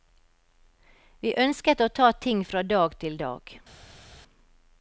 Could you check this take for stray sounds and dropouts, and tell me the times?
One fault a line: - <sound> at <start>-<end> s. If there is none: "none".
none